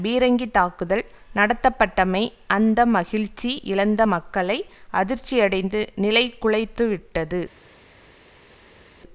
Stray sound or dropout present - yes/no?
no